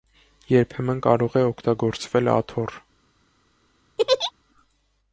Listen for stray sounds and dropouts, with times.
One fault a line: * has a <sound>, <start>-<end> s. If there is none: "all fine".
* has a laugh, 4.0-4.3 s